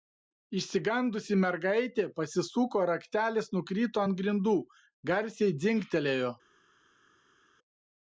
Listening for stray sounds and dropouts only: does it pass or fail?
pass